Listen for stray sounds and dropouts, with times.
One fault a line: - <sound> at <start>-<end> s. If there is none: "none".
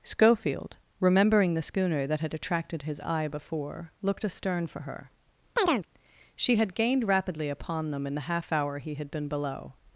- chirp at 5.6-5.9 s